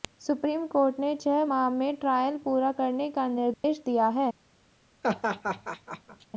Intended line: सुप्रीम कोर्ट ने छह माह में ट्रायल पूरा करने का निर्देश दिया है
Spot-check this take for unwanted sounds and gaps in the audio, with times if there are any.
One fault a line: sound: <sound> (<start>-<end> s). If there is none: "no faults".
sound: dropout (3.5-3.6 s)
sound: laugh (5.0-6.3 s)